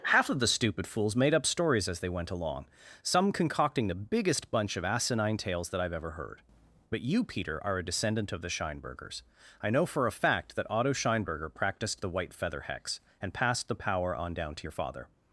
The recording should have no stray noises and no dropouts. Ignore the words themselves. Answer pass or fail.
pass